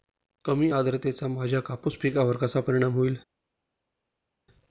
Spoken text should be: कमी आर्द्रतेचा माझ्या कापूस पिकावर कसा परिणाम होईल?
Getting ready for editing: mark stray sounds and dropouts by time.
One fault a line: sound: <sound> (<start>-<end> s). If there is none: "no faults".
no faults